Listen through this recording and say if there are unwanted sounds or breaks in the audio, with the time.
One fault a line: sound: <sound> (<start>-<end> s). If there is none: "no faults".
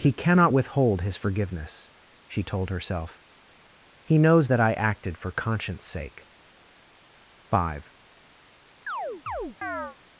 sound: chirp (8.9-10.0 s)